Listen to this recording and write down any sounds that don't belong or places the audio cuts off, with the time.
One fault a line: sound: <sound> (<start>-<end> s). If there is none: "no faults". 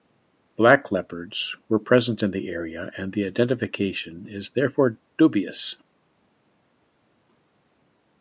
no faults